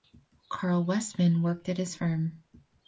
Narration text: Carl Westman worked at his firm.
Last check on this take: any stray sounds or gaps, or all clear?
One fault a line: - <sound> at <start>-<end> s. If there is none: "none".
none